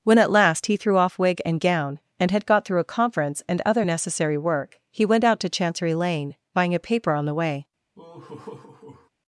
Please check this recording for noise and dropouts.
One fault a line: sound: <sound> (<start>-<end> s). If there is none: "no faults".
sound: laugh (7.9-9.1 s)